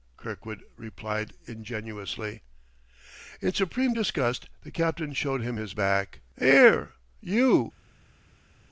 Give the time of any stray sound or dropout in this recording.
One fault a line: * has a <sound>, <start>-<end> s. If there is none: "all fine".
all fine